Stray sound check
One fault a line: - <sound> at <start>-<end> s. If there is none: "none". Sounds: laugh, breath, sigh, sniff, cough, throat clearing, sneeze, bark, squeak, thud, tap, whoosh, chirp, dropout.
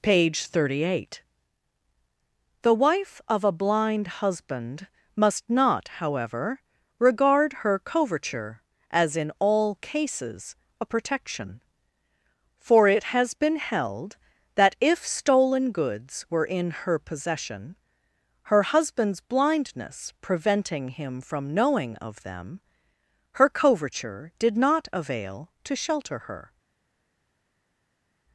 none